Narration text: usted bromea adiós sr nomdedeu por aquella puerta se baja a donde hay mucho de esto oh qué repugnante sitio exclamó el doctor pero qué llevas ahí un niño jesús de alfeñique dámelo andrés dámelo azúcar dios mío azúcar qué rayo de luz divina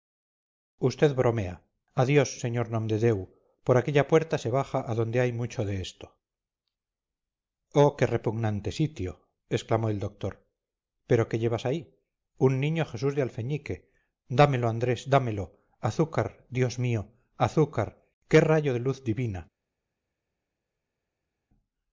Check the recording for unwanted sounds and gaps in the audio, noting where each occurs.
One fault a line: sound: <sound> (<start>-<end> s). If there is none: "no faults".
no faults